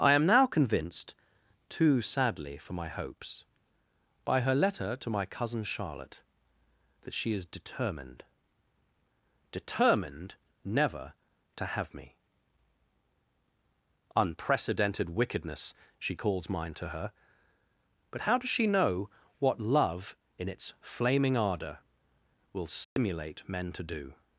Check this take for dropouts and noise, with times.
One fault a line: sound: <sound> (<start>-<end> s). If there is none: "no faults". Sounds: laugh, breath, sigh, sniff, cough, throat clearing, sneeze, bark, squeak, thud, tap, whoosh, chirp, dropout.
sound: dropout (22.8-23.0 s)